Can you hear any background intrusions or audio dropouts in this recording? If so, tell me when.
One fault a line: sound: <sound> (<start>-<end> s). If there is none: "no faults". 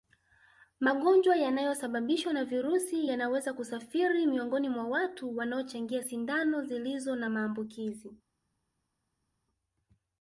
no faults